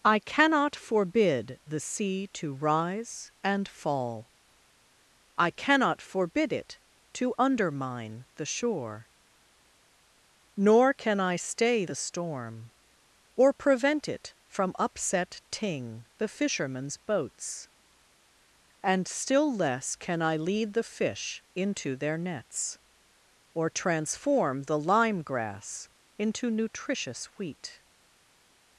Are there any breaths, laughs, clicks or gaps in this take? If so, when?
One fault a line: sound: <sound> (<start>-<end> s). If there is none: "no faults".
no faults